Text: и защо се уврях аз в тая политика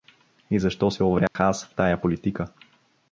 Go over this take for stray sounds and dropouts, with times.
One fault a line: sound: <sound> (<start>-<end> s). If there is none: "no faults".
sound: dropout (1.3-1.4 s)